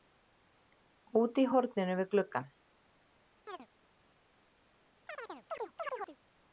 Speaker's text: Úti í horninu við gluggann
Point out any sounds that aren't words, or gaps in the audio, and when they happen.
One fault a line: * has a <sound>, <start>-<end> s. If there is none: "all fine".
* has a chirp, 3.5-3.7 s
* has a chirp, 5.1-6.2 s